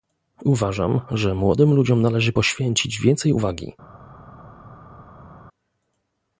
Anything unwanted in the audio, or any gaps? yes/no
no